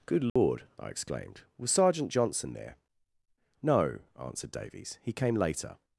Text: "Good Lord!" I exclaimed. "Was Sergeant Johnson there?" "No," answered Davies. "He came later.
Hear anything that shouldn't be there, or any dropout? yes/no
yes